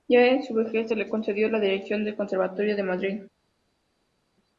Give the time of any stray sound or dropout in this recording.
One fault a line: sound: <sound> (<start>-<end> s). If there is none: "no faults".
no faults